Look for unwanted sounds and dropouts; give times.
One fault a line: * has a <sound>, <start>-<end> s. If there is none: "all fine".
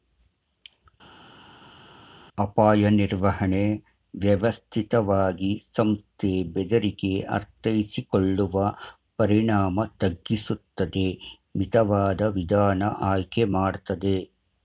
all fine